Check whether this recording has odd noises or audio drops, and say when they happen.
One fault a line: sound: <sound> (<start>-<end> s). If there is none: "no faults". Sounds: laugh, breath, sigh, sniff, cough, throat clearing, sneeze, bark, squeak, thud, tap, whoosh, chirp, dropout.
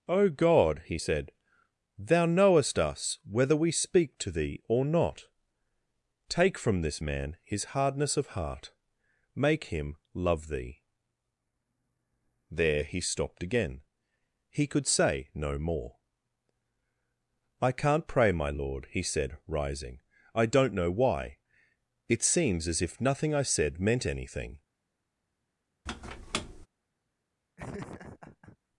sound: squeak (25.9-26.7 s)
sound: laugh (27.6-28.6 s)